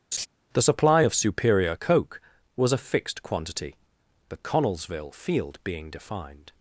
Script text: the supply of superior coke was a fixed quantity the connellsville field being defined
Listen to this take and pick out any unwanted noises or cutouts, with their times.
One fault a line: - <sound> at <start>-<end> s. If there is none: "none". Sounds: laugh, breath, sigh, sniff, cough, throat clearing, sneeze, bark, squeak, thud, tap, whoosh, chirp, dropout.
- laugh at 0.1-0.3 s